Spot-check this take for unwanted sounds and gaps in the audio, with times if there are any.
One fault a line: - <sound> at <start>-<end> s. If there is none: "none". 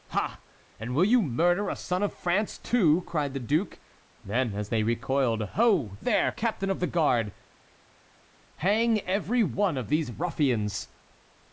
none